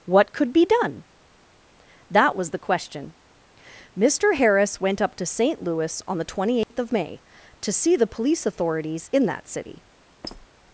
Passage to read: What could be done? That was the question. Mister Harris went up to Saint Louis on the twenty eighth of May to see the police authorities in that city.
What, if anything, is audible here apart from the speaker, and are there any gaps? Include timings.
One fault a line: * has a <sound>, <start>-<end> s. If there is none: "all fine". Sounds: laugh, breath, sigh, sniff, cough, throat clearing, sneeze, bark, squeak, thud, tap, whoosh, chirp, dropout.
* has a dropout, 6.6-6.7 s
* has a squeak, 10.2-10.5 s